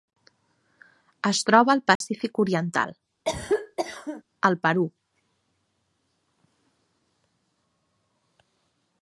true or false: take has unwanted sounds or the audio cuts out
true